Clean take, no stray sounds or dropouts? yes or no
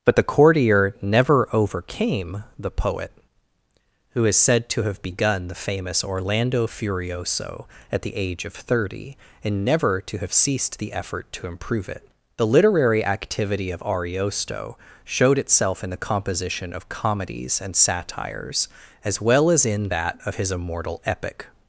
yes